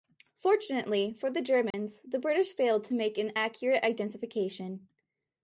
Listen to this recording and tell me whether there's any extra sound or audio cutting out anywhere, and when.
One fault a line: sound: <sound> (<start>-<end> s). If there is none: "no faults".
sound: dropout (1.7-1.7 s)